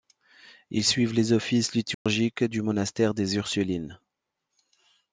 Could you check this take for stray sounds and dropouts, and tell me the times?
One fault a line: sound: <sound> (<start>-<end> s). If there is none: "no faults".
sound: dropout (1.9-2.1 s)